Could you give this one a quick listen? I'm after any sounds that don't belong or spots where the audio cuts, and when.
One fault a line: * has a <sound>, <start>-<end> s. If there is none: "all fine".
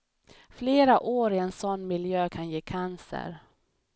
all fine